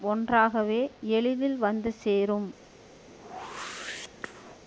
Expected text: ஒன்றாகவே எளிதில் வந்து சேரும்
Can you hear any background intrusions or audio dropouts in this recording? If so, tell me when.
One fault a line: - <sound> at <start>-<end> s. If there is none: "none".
- whoosh at 3.1-4.6 s